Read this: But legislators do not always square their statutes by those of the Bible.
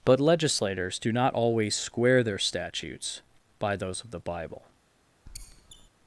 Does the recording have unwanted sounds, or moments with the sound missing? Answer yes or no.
yes